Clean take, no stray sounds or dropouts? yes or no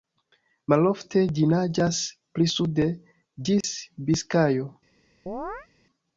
no